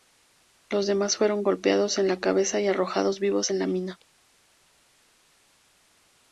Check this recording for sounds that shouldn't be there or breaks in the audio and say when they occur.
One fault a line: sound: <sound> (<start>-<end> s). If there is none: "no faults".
no faults